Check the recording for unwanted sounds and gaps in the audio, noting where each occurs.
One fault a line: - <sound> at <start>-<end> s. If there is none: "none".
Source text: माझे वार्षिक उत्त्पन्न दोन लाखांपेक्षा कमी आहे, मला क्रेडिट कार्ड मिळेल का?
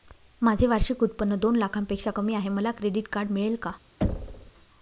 - thud at 4.0-4.5 s